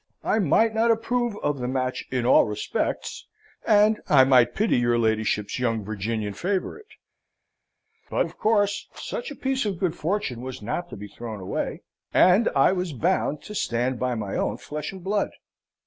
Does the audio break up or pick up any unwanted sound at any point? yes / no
no